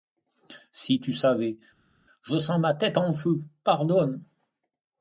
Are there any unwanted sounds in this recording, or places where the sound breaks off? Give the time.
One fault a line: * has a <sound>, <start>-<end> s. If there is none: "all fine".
all fine